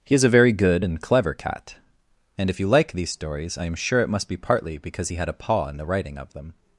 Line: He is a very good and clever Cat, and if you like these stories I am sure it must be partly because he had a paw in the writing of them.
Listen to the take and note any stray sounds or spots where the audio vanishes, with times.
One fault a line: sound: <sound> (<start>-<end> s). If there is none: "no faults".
no faults